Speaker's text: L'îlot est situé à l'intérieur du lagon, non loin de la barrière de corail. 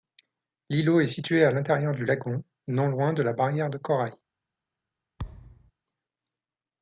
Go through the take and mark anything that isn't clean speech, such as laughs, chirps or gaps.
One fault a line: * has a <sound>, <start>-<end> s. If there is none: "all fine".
* has a thud, 5.2-5.7 s